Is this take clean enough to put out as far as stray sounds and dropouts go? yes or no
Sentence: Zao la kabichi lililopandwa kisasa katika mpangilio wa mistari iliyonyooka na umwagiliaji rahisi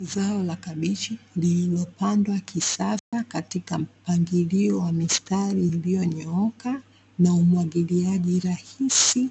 no